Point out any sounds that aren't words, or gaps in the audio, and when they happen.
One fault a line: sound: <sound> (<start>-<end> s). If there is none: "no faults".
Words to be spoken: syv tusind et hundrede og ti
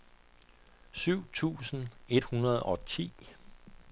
no faults